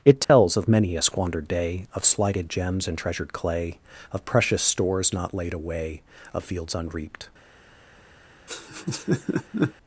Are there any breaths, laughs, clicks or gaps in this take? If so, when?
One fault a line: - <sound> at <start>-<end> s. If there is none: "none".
- dropout at 0.2-0.3 s
- laugh at 8.5-9.7 s